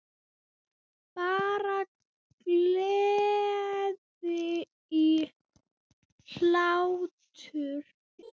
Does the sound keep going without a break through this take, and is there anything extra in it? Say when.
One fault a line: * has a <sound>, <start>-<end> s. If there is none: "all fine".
* has a laugh, 8.2-8.3 s